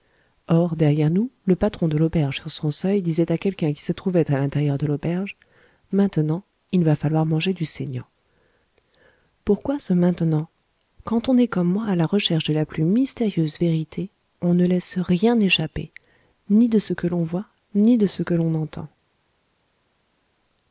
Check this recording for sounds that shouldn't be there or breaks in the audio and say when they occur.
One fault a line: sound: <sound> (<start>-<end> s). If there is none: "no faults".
no faults